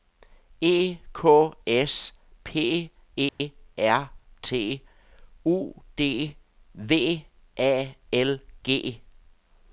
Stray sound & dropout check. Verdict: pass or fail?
fail